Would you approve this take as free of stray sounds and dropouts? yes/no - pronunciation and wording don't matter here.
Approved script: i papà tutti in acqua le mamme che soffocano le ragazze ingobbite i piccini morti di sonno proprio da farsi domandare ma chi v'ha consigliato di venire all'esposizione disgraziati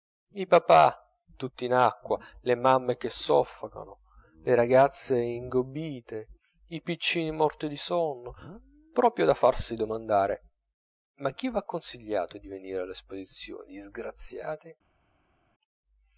yes